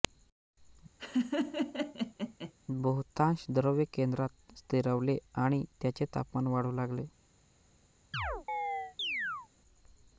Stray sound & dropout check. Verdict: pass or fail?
fail